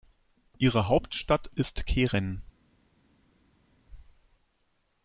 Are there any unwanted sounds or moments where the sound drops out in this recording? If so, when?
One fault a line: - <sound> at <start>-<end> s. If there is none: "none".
none